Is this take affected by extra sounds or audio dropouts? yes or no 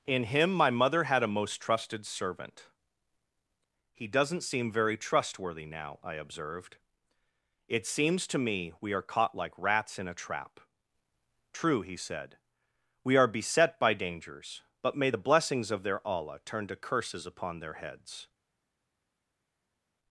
no